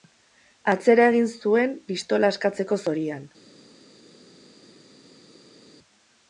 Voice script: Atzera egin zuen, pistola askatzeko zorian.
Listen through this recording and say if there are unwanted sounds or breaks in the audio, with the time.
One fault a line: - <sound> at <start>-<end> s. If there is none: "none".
none